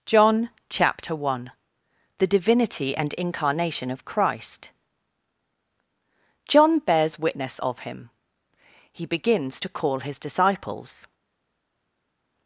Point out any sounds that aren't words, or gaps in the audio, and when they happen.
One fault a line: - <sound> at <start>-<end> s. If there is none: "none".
none